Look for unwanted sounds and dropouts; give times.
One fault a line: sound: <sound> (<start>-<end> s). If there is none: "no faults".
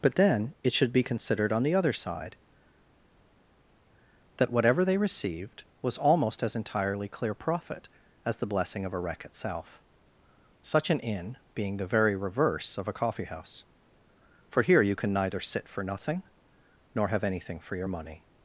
no faults